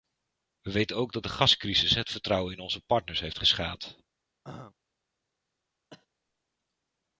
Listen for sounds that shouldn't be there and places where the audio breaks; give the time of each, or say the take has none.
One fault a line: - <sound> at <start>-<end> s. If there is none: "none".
- throat clearing at 4.4-4.7 s
- cough at 5.9-6.1 s